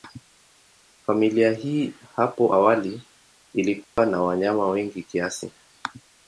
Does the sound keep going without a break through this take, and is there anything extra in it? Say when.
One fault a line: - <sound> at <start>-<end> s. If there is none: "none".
- dropout at 3.8-4.0 s